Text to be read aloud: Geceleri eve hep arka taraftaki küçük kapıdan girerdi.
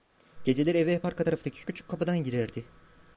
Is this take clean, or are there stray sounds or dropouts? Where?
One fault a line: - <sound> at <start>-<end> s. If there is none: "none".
none